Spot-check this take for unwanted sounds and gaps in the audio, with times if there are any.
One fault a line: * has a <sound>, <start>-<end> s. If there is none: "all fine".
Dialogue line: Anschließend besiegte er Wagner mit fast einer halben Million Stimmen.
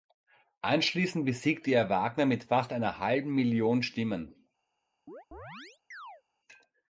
* has a chirp, 5.1-6.2 s